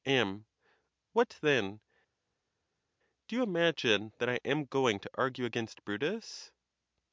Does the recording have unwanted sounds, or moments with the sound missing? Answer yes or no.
no